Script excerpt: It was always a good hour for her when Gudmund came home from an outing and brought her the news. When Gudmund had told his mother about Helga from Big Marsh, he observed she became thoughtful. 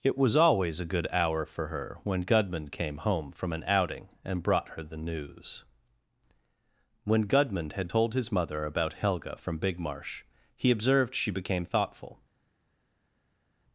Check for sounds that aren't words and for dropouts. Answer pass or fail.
pass